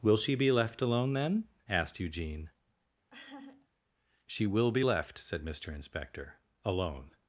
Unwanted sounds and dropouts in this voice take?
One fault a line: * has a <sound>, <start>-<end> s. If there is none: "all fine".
* has a laugh, 3.1-3.7 s